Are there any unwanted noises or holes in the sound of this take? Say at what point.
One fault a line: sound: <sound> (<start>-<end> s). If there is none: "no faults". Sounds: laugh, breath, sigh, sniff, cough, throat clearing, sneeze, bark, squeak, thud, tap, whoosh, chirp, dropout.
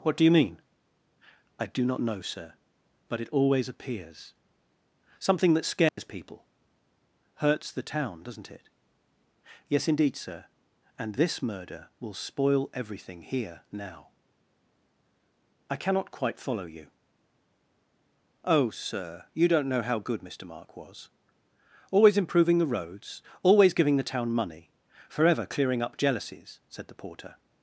sound: dropout (5.9-6.0 s)